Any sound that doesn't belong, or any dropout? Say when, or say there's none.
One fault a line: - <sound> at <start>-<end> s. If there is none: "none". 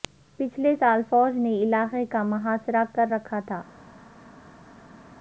none